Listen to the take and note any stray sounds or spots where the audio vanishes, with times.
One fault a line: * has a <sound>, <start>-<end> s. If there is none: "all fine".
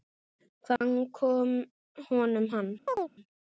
* has a dropout, 0.8-0.8 s
* has a chirp, 2.9-3.1 s